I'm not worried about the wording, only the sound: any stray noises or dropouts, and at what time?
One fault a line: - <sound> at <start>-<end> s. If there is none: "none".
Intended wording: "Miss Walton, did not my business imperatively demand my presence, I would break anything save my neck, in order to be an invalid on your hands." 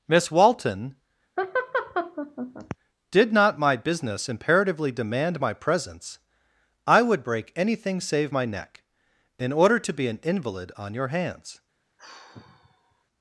- laugh at 1.4-2.8 s
- sigh at 12.0-13.0 s